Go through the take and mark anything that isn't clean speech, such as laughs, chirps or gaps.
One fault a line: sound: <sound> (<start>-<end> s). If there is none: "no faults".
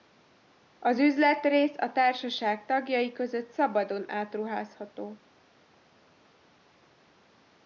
no faults